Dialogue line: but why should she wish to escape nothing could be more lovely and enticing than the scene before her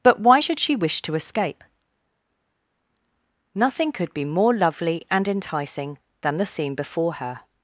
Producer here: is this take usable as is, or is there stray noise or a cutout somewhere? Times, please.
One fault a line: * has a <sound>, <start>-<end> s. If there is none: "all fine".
all fine